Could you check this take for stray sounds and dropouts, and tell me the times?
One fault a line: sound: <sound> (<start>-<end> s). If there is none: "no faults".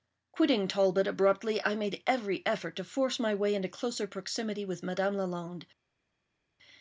no faults